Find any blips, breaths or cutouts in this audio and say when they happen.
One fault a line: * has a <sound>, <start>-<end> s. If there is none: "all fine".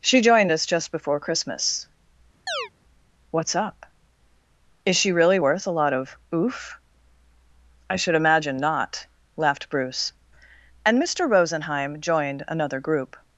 * has a chirp, 2.5-2.7 s